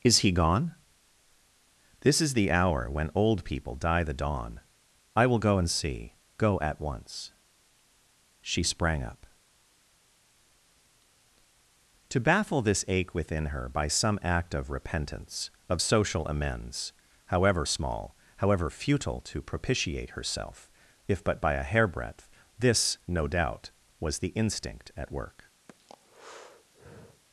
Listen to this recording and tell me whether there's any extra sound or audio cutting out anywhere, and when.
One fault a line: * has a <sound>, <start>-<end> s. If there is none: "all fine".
* has a breath, 25.7-27.2 s